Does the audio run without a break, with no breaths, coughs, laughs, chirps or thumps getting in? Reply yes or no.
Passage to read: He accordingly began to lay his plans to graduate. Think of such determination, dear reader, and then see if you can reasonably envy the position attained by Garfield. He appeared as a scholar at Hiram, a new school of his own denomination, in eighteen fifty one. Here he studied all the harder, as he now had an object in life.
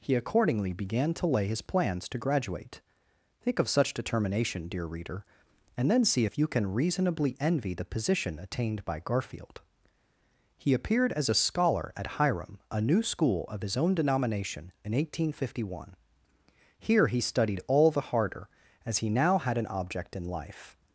yes